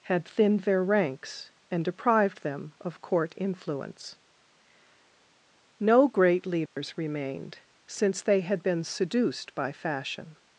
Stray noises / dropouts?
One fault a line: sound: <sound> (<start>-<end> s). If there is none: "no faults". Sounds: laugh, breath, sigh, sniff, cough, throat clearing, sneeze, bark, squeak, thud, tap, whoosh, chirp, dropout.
sound: dropout (6.7-6.8 s)